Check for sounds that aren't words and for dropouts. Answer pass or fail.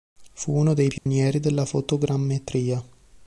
fail